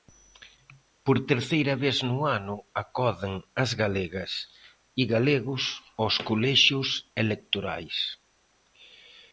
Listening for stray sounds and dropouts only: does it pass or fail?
pass